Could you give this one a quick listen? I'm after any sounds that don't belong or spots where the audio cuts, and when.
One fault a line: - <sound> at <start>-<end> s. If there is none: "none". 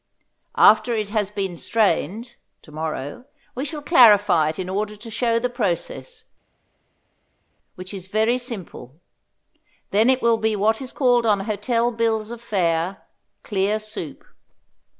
none